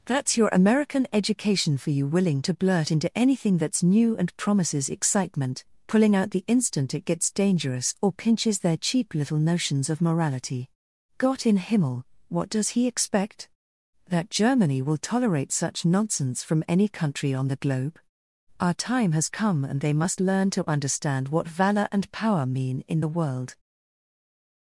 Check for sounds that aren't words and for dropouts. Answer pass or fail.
pass